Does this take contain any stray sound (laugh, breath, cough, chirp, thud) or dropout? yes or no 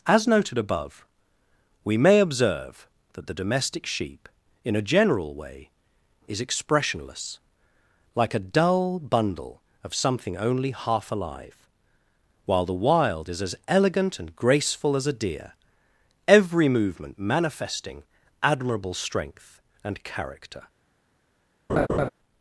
yes